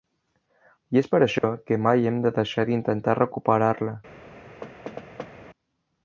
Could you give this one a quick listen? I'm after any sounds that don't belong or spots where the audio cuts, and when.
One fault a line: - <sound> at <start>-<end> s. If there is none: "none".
- dropout at 1.4-1.4 s
- thud at 4.6-5.3 s